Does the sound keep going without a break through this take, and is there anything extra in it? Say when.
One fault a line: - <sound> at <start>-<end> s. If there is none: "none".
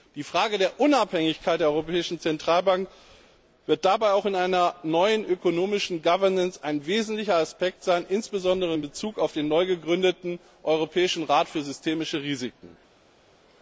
none